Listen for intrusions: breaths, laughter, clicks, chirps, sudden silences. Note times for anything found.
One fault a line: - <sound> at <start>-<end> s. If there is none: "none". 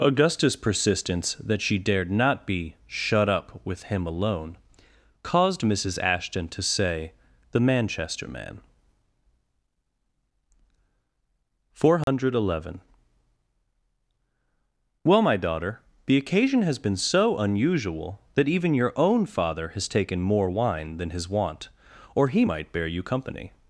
- dropout at 12.0-12.1 s